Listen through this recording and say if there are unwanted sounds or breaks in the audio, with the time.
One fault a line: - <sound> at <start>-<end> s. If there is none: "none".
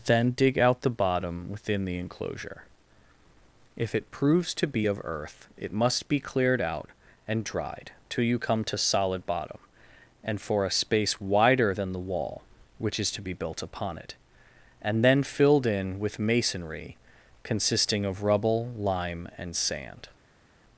none